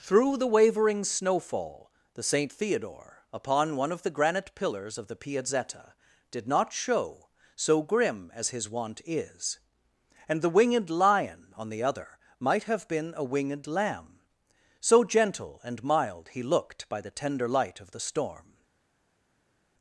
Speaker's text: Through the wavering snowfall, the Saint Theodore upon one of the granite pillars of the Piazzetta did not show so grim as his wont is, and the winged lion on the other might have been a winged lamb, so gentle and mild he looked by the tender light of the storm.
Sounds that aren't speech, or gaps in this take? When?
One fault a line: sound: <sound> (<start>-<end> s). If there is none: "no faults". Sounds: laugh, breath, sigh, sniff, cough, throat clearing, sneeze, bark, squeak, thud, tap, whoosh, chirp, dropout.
no faults